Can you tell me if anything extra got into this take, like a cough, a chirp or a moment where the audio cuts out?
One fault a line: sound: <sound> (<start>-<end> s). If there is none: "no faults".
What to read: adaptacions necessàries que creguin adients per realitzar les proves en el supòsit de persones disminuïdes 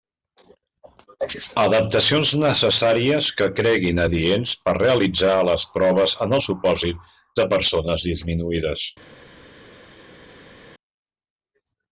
no faults